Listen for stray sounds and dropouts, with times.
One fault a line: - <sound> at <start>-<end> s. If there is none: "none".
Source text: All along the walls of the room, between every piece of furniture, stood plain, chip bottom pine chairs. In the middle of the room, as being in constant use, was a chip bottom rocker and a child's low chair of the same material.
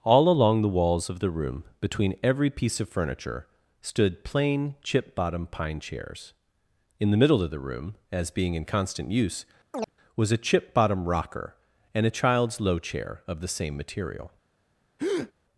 - chirp at 9.7-9.9 s
- breath at 15.0-15.3 s